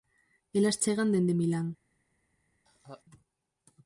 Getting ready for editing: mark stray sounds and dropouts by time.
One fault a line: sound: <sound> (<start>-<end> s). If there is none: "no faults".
sound: laugh (2.7-3.0 s)